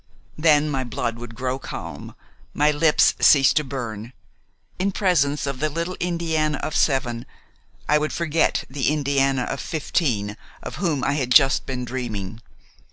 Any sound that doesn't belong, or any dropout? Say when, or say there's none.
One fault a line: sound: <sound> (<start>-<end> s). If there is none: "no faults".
no faults